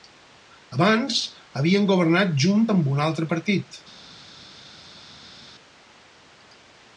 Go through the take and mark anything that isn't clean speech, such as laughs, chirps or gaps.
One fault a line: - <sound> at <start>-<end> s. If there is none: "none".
none